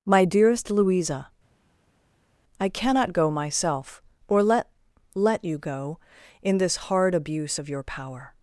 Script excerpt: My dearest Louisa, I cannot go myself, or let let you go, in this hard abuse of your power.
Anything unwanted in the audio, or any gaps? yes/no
no